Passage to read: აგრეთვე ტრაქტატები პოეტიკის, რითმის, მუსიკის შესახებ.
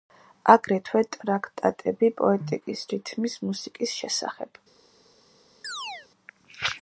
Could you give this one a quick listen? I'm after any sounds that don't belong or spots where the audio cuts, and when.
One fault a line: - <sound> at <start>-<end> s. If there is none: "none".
- chirp at 5.6-6.1 s